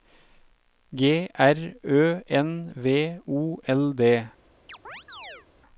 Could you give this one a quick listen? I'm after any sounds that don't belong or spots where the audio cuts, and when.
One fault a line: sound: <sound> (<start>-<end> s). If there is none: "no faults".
sound: chirp (4.7-5.5 s)